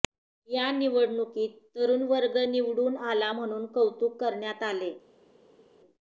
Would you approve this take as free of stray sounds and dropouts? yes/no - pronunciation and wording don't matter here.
yes